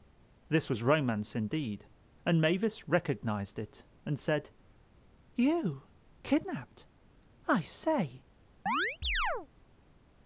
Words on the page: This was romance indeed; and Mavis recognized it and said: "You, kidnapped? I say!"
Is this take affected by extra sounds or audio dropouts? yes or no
yes